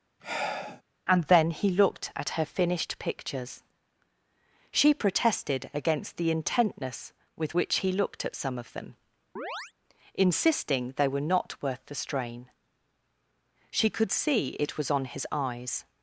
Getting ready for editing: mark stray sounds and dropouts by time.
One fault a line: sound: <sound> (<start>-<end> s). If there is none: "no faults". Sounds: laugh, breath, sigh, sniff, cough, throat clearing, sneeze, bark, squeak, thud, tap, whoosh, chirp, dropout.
sound: sigh (0.2-0.8 s)
sound: chirp (9.4-9.7 s)